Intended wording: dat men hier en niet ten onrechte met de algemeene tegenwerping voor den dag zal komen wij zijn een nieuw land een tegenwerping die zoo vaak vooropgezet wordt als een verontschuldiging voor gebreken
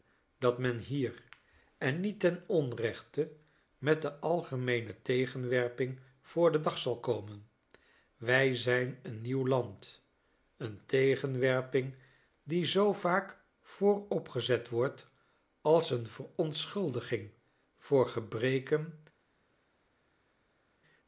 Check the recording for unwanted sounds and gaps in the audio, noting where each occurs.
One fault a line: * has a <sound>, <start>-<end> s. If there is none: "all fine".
all fine